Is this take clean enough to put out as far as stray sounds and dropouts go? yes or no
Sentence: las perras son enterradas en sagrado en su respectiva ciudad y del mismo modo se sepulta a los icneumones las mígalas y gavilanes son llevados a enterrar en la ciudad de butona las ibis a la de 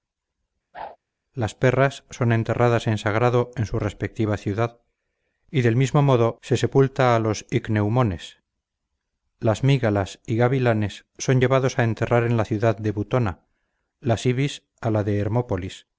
no